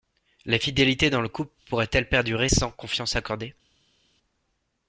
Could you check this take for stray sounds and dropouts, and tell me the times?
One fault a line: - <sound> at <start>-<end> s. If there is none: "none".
none